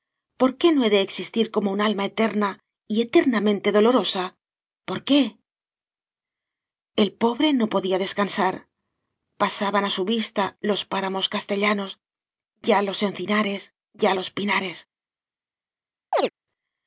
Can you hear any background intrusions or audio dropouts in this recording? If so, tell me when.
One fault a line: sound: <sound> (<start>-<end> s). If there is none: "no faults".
sound: chirp (16.1-16.3 s)